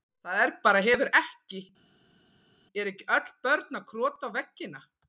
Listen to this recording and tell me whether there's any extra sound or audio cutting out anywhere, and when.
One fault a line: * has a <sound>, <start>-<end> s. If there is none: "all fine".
all fine